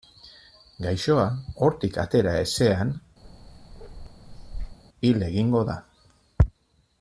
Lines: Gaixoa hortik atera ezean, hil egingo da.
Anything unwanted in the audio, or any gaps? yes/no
yes